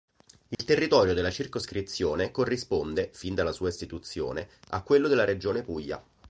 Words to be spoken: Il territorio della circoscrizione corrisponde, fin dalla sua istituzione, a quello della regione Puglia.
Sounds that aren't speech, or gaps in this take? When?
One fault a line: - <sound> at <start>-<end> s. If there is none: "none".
- dropout at 0.5-0.6 s